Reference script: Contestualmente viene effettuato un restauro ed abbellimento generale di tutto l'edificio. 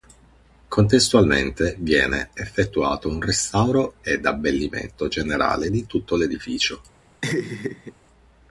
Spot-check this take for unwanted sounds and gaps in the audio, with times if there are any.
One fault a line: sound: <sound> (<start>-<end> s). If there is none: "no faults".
sound: laugh (7.2-7.9 s)